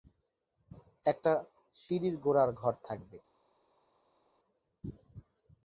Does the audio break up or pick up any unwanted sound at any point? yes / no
no